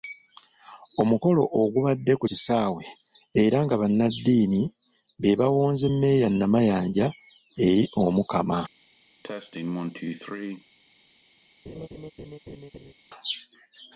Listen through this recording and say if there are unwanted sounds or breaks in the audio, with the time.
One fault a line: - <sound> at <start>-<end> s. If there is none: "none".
- cough at 9.2-10.6 s
- laugh at 11.7-12.9 s